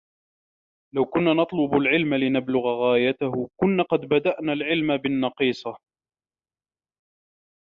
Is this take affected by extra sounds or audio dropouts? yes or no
no